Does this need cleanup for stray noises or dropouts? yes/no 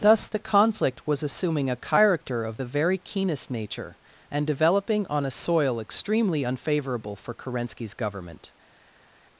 no